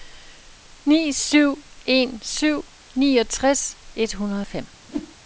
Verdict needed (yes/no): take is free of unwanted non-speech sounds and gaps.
no